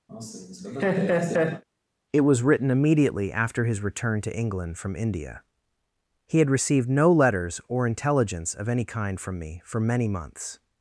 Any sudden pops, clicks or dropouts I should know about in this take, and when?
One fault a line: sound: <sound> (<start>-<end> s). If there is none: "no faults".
sound: laugh (0.1-1.6 s)